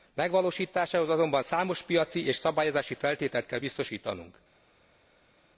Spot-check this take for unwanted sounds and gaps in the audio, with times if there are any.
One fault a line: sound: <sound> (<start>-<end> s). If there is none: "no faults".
no faults